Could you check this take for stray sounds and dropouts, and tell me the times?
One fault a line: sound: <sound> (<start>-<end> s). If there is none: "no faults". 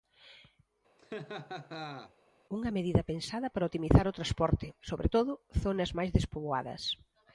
sound: laugh (1.0-2.1 s)